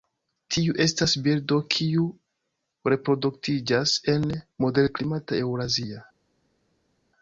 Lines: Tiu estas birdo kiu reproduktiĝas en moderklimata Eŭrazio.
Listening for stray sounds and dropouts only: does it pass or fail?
pass